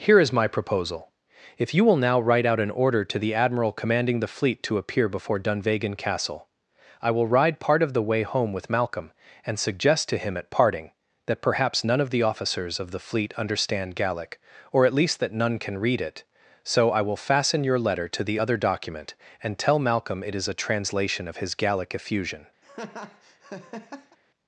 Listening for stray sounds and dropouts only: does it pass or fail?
fail